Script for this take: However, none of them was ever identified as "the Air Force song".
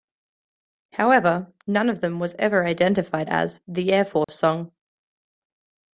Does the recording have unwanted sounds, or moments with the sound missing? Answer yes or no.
yes